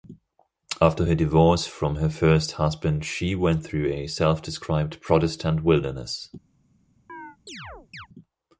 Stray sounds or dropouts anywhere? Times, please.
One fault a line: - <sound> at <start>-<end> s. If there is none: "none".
- chirp at 7.1-8.1 s